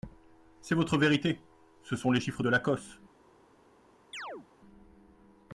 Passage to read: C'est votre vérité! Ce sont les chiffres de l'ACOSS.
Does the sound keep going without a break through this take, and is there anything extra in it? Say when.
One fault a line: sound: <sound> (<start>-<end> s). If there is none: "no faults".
sound: chirp (4.1-4.5 s)